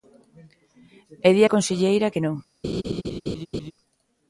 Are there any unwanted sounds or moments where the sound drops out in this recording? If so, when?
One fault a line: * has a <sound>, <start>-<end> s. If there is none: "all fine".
* has a laugh, 2.6-3.7 s